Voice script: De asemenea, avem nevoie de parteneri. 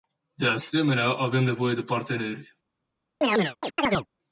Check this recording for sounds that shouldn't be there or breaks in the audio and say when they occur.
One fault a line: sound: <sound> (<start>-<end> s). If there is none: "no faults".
sound: chirp (3.2-4.1 s)